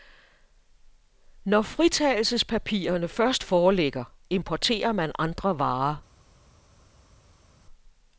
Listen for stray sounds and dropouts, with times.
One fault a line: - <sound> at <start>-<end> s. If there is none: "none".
none